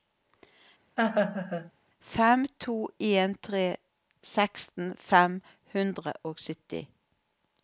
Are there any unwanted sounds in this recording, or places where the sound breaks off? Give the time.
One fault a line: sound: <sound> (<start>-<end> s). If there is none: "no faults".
sound: laugh (1.0-1.7 s)